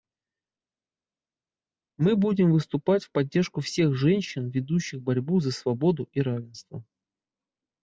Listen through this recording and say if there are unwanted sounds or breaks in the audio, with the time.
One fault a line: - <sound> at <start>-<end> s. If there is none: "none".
none